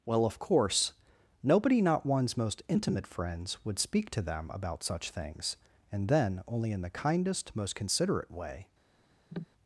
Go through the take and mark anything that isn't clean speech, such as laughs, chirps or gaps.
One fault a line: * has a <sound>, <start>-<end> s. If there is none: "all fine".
* has a cough, 9.3-9.5 s